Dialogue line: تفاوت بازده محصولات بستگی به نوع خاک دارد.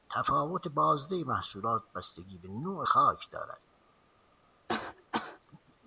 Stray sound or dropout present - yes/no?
yes